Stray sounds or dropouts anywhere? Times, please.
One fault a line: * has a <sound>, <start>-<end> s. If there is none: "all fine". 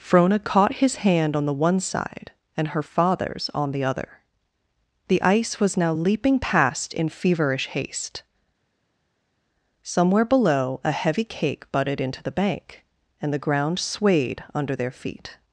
all fine